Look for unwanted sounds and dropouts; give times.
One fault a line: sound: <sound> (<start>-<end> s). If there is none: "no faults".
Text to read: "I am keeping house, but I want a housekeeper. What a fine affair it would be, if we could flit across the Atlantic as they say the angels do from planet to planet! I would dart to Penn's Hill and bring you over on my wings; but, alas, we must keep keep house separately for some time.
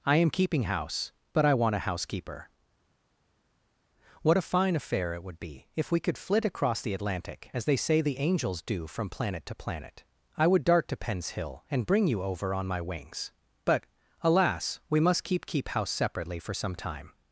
no faults